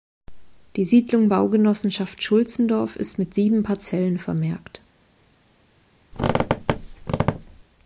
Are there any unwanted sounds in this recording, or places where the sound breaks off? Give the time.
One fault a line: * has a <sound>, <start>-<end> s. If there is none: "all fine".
* has a squeak, 6.1-7.6 s